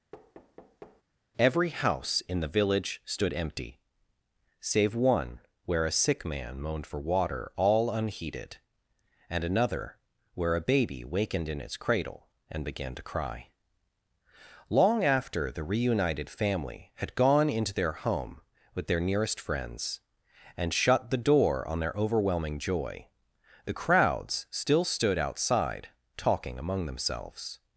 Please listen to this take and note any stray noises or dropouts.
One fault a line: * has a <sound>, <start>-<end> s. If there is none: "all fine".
* has a thud, 0.1-1.0 s